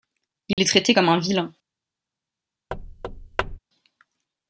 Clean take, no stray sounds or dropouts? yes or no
no